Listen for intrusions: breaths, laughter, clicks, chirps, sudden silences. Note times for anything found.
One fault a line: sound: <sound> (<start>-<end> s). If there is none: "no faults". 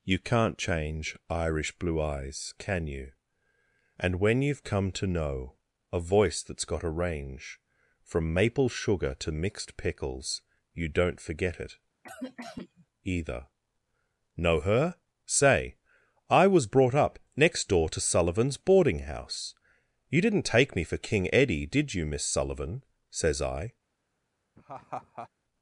sound: cough (12.0-12.9 s)
sound: laugh (24.6-25.3 s)